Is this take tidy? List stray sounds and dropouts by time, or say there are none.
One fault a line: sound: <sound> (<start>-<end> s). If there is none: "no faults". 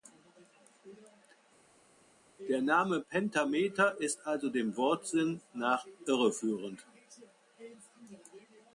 no faults